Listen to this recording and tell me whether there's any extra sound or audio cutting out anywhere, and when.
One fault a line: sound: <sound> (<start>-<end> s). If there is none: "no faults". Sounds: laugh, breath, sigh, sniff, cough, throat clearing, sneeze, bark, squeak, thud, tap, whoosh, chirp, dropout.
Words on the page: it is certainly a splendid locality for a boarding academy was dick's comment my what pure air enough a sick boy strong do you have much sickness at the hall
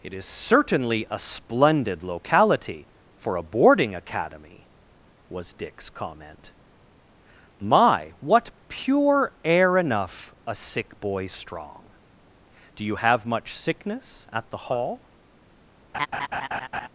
sound: laugh (15.9-16.9 s)